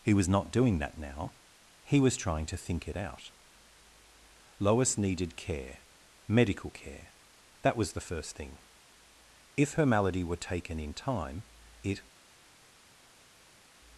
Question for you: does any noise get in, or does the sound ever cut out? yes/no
no